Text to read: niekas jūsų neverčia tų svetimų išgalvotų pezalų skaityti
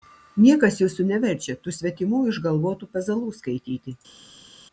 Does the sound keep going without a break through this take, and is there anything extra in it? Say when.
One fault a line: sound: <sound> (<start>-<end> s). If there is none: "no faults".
no faults